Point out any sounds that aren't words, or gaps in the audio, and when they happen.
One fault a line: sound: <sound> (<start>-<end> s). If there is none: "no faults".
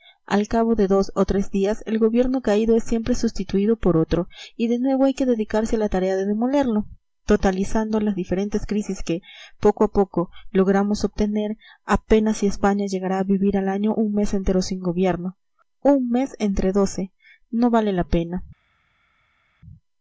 no faults